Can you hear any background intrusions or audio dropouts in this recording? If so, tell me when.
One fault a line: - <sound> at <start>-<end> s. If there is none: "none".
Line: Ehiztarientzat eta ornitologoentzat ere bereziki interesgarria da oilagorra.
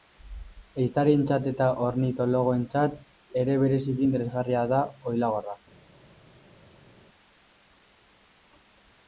none